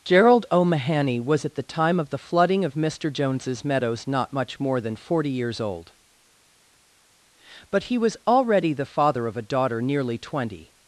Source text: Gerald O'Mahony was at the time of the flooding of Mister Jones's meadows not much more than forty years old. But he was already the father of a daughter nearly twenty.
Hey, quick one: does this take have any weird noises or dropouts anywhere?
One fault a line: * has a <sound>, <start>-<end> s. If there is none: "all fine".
all fine